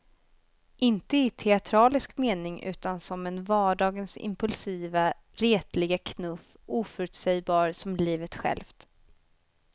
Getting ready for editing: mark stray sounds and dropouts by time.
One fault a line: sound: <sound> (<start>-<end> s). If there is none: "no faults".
no faults